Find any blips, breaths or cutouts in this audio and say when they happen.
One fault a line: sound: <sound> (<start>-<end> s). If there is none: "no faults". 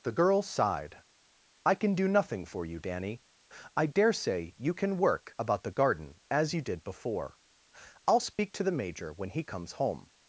sound: dropout (8.3-8.4 s)